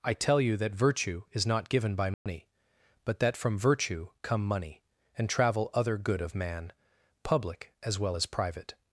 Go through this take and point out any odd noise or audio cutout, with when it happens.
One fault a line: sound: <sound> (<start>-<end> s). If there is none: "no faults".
sound: dropout (2.1-2.3 s)